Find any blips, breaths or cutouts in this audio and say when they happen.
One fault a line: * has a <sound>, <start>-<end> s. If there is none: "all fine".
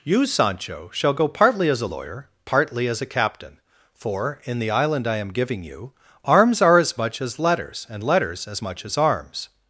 all fine